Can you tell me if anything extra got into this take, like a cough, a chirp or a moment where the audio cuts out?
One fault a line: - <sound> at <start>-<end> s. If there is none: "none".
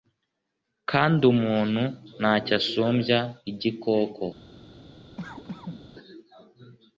- cough at 5.2-5.8 s